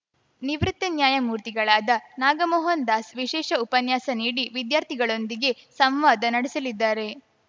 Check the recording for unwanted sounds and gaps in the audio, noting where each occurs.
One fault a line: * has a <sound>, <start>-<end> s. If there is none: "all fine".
all fine